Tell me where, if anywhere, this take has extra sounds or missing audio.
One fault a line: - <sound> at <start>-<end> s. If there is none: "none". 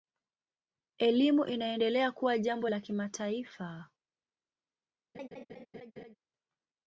- laugh at 5.1-6.2 s